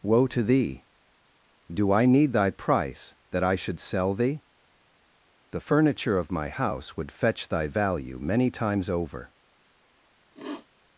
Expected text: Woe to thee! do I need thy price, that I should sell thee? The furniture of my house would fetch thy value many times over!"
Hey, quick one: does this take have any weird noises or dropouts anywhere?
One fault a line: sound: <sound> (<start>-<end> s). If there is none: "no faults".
sound: sniff (10.3-10.7 s)